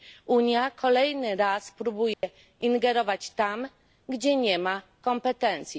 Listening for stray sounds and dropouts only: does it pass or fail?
fail